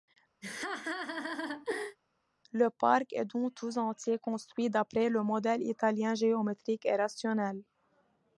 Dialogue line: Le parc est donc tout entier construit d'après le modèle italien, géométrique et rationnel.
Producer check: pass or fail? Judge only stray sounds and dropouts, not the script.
fail